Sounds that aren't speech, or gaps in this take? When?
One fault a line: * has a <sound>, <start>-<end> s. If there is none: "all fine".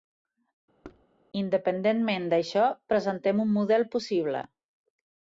* has a thud, 0.8-1.1 s